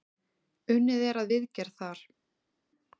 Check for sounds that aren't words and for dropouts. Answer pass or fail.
pass